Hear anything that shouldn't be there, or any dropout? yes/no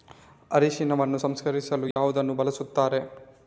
yes